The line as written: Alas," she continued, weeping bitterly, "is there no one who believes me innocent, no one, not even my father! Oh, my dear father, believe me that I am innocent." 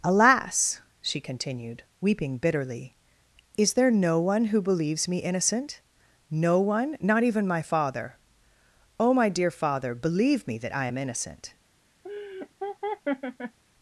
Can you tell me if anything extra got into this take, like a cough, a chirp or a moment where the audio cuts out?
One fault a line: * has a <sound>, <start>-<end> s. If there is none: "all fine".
* has a laugh, 12.0-13.6 s